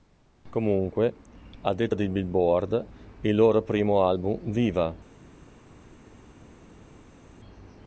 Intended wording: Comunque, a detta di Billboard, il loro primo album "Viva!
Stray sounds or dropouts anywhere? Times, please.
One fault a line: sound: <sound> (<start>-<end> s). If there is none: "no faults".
no faults